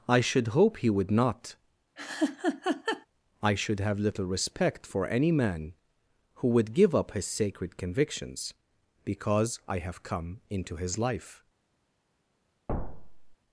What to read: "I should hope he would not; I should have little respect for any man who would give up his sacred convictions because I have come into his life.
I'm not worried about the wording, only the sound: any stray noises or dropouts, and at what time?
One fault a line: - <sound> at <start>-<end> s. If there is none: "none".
- laugh at 2.0-3.1 s
- thud at 12.7-13.4 s